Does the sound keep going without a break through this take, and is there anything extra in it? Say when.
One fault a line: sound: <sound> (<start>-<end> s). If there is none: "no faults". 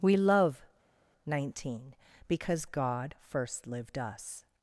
no faults